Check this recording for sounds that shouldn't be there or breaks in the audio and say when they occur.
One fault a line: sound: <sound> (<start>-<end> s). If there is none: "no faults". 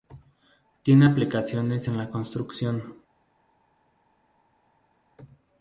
no faults